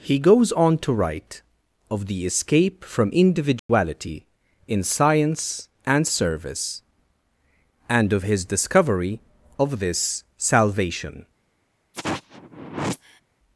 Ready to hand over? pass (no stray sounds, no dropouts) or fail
fail